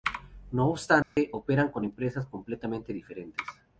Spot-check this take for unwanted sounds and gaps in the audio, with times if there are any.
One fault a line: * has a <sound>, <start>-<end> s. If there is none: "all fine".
* has a dropout, 1.0-1.2 s